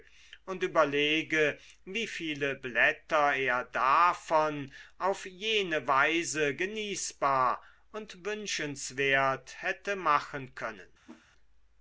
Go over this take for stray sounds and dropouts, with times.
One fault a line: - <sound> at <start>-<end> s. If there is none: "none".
- whoosh at 11.1-11.3 s